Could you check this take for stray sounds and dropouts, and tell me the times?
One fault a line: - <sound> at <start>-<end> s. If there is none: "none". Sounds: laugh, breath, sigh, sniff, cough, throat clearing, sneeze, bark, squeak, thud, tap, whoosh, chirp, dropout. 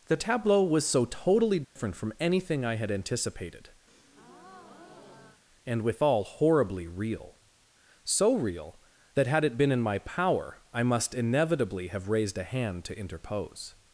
- dropout at 1.6-1.8 s
- breath at 3.9-5.4 s